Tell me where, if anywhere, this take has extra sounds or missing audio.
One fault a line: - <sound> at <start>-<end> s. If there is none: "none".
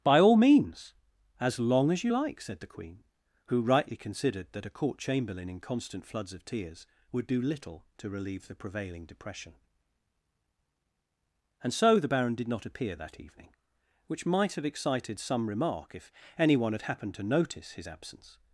none